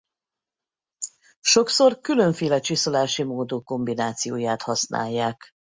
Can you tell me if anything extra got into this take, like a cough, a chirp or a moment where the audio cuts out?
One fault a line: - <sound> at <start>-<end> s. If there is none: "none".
none